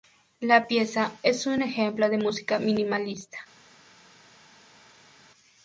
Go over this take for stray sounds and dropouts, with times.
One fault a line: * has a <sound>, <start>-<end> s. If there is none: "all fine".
all fine